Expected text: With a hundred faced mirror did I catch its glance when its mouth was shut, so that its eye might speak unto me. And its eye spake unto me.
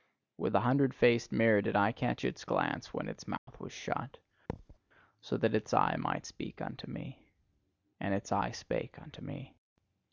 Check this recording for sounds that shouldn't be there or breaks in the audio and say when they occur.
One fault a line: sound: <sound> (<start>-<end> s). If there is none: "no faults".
sound: dropout (3.4-3.5 s)
sound: thud (4.5-4.8 s)